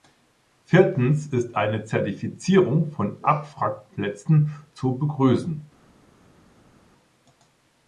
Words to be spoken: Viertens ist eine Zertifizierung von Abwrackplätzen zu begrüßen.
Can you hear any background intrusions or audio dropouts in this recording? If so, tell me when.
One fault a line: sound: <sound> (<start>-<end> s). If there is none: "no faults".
no faults